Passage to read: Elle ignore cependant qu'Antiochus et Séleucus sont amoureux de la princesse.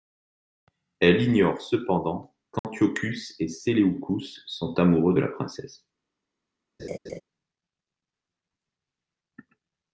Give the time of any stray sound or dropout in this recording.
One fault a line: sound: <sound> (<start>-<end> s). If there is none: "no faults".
sound: dropout (2.6-2.6 s)
sound: laugh (6.8-7.2 s)